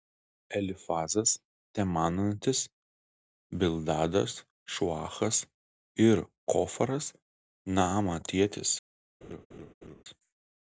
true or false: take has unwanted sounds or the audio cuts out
true